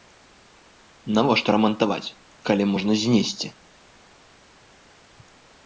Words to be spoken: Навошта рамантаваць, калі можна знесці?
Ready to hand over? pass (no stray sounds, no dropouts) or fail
pass